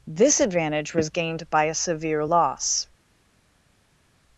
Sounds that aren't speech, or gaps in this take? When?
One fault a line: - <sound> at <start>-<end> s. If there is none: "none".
none